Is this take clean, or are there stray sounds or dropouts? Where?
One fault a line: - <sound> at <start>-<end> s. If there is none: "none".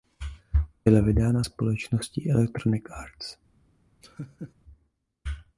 - laugh at 4.0-4.5 s